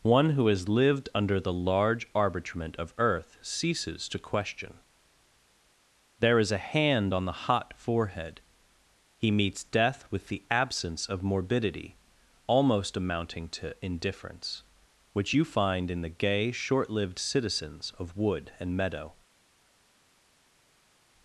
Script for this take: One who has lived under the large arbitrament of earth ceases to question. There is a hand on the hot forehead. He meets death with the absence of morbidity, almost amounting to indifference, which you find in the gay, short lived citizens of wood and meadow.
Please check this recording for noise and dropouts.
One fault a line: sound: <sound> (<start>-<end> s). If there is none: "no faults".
no faults